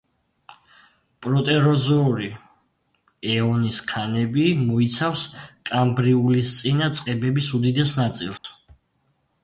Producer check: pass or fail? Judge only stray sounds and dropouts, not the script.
fail